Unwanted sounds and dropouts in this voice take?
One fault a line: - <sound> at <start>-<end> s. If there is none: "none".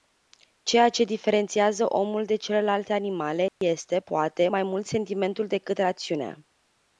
- dropout at 3.5-3.6 s